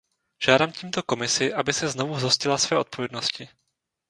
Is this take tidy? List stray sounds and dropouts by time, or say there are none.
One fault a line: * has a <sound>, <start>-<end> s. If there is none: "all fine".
all fine